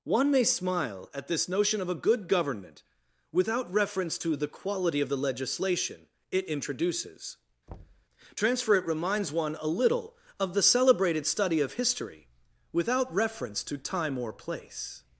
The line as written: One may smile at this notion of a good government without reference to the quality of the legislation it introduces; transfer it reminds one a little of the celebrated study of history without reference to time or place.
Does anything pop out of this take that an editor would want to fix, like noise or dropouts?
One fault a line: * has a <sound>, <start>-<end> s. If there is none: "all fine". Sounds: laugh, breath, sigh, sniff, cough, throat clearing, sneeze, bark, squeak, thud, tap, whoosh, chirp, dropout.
* has a thud, 7.7-8.1 s